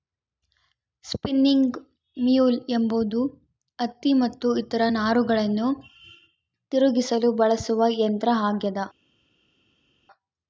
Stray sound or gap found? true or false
false